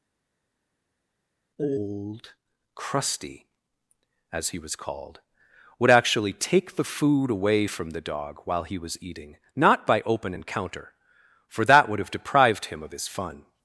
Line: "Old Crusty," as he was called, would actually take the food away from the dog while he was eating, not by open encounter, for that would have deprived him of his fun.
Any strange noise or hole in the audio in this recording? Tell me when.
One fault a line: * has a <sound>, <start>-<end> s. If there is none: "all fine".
all fine